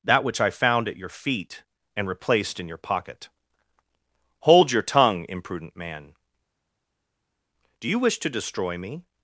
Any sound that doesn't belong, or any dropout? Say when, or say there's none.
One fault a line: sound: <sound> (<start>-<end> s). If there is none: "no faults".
no faults